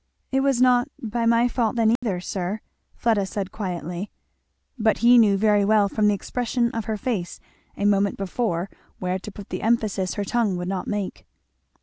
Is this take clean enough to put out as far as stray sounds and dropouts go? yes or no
no